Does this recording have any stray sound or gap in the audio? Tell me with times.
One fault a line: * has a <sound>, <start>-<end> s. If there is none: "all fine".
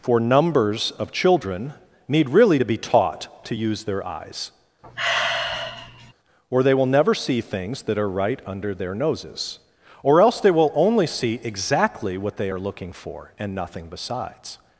* has a sigh, 4.8-6.1 s